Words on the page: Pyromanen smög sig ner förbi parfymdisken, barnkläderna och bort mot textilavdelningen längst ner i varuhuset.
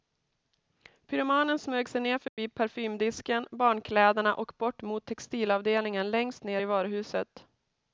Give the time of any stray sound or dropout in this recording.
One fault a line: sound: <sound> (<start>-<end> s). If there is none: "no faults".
sound: dropout (2.3-2.4 s)